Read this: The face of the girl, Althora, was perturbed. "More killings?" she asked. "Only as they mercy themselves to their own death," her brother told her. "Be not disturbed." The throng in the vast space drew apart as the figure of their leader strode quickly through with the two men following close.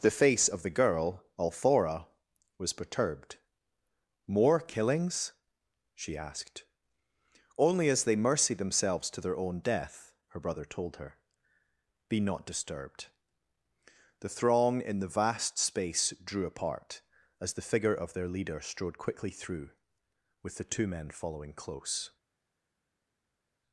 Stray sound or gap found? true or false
false